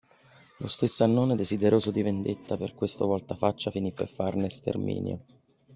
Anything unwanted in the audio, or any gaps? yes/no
no